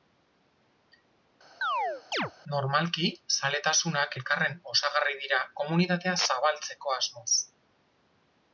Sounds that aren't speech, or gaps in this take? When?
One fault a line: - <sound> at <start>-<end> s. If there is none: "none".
- chirp at 1.6-2.3 s